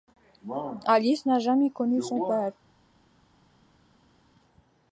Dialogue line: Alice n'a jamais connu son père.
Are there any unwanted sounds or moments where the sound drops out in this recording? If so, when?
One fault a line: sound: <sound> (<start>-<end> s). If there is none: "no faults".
no faults